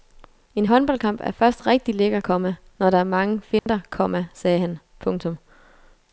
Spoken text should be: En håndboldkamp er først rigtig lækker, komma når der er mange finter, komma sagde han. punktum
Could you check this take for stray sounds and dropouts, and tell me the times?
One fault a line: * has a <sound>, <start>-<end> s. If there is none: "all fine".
* has a dropout, 3.6-3.7 s